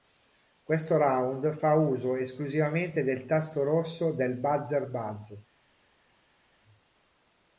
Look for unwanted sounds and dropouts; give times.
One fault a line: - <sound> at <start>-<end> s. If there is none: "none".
none